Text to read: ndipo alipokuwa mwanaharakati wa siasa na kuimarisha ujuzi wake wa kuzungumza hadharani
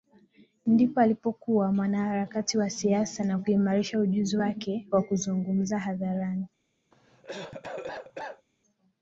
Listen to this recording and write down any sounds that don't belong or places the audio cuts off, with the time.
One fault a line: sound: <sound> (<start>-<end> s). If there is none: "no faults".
sound: cough (6.9-8.5 s)